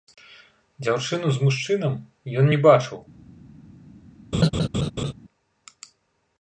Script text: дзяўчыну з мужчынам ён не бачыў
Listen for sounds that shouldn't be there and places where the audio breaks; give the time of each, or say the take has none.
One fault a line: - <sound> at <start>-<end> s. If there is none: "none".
- laugh at 4.3-5.1 s